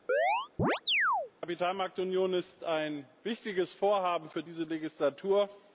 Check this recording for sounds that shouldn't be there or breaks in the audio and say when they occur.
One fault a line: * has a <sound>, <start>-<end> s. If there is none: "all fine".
* has a chirp, 0.1-1.3 s